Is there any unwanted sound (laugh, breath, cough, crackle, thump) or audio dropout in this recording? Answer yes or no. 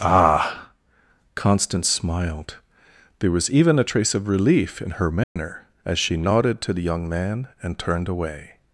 yes